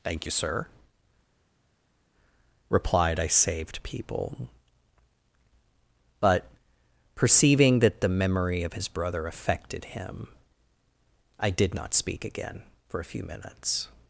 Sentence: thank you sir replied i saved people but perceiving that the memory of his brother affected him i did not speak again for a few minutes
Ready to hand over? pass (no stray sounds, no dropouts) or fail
pass